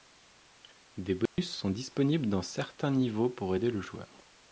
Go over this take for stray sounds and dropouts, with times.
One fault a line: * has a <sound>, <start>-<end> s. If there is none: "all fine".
* has a dropout, 1.3-1.4 s